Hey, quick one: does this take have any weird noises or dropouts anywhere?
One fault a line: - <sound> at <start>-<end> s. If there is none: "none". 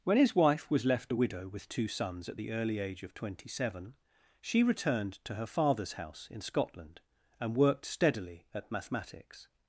none